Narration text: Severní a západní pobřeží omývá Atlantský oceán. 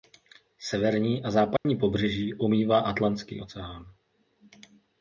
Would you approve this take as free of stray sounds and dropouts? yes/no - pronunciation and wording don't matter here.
no